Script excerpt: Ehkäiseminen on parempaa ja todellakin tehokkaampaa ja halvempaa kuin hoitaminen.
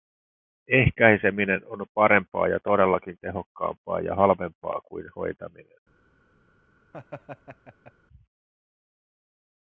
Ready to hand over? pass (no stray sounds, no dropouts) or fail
fail